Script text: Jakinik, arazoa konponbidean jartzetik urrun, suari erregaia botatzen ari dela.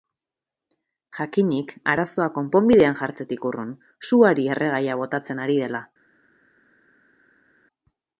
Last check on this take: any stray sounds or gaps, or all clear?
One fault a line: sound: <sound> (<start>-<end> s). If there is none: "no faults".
no faults